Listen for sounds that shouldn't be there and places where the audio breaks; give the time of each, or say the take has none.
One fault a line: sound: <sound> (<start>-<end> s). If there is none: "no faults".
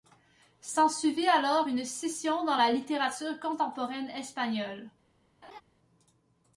sound: laugh (5.4-5.6 s)